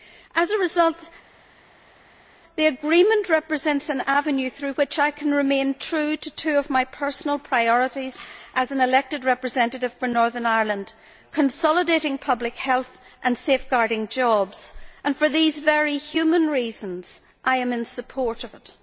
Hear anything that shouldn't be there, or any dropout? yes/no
no